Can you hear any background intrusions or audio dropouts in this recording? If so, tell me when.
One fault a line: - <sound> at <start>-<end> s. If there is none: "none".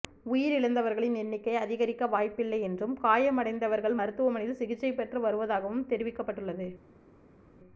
none